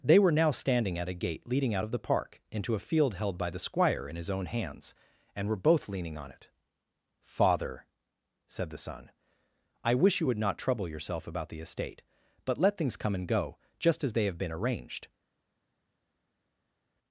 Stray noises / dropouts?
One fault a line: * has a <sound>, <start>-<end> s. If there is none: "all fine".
all fine